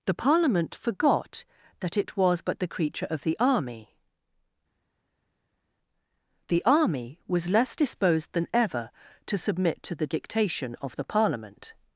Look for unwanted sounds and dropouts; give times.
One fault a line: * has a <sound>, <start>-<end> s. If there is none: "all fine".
all fine